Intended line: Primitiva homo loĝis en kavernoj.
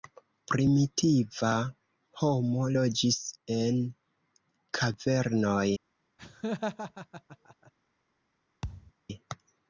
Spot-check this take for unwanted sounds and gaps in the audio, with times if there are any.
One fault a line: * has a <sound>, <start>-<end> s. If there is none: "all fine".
* has a laugh, 6.2-7.7 s
* has a thud, 8.6-8.9 s